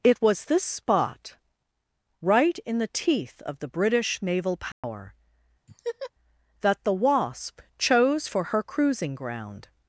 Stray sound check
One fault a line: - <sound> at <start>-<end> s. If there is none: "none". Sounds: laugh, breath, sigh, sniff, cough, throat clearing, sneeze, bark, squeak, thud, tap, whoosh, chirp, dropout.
- dropout at 4.7-4.8 s
- laugh at 5.7-6.1 s